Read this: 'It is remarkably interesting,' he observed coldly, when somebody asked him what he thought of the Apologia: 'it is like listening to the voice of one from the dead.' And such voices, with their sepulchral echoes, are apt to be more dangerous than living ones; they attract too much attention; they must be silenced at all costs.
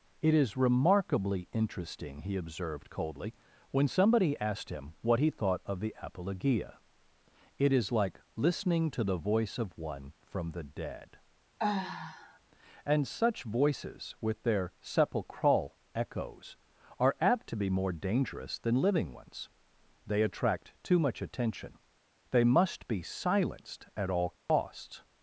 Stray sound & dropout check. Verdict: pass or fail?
fail